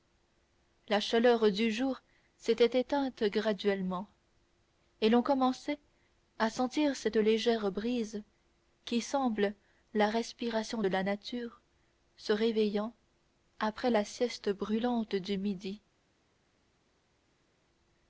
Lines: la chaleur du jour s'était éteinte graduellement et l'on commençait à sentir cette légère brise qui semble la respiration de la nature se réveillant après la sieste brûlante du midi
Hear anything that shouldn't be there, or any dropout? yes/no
no